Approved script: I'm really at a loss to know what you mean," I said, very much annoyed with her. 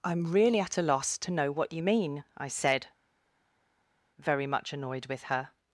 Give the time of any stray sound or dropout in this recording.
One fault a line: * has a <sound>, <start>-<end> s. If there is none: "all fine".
all fine